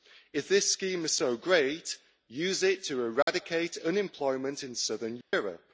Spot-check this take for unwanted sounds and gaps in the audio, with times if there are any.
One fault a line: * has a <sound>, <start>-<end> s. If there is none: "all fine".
* has a dropout, 3.2-3.3 s
* has a dropout, 5.2-5.3 s